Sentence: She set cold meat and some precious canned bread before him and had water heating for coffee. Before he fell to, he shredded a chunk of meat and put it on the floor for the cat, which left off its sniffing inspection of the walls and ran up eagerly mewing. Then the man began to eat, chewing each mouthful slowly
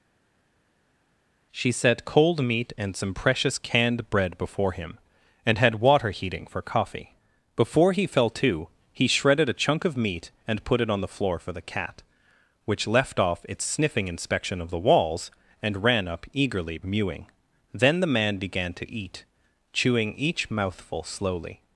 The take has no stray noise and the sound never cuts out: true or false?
true